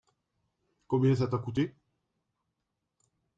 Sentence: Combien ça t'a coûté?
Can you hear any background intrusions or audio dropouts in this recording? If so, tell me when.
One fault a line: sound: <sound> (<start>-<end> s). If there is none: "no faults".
no faults